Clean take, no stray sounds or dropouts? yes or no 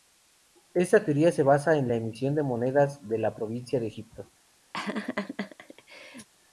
no